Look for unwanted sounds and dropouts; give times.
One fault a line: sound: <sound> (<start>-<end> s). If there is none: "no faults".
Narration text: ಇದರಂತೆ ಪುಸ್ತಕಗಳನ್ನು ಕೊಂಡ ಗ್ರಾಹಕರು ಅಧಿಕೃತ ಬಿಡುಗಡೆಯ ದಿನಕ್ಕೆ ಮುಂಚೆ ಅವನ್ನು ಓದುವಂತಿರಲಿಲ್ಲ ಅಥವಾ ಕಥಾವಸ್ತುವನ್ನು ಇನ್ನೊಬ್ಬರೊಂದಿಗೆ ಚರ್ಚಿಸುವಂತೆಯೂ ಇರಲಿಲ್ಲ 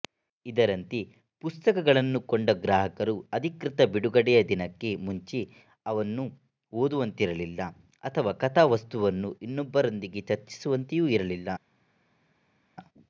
no faults